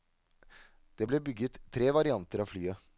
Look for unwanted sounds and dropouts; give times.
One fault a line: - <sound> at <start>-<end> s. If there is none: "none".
none